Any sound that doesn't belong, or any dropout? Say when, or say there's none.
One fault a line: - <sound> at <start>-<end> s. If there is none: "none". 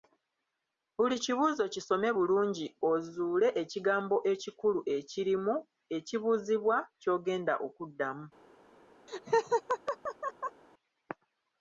- laugh at 9.1-10.6 s